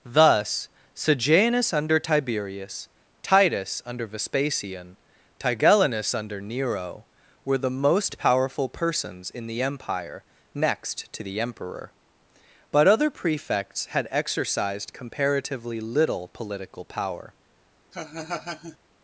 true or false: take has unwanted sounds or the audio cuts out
true